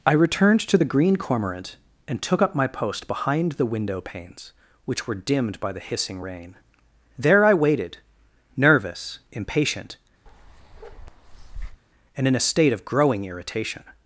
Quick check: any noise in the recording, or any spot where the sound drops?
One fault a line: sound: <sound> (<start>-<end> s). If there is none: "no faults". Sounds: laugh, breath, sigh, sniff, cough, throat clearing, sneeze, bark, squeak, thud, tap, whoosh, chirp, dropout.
sound: bark (10.3-11.8 s)